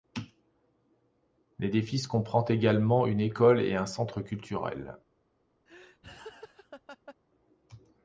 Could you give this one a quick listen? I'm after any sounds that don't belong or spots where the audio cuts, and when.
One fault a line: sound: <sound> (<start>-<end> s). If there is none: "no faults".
sound: laugh (5.7-7.2 s)